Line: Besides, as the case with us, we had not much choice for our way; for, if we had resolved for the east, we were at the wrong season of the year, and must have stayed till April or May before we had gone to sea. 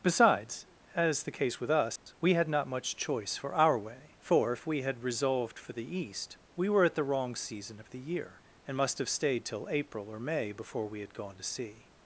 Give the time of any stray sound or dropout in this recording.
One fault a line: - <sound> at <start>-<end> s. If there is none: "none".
- dropout at 2.0-2.1 s